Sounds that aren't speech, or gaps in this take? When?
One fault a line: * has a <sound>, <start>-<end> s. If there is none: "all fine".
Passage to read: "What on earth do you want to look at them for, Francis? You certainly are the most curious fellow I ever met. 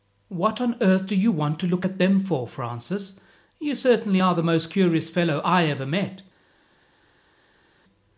all fine